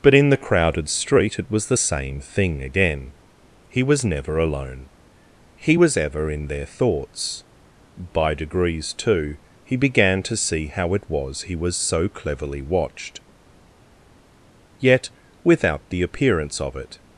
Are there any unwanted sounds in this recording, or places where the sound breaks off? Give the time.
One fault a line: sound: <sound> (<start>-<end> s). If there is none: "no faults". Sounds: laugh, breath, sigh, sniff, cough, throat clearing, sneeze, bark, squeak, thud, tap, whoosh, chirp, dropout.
no faults